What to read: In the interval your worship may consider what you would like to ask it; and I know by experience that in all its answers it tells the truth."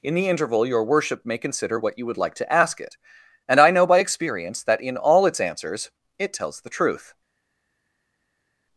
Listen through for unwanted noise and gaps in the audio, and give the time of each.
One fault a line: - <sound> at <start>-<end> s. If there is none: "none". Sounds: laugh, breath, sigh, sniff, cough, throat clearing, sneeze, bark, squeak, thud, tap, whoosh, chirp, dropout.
none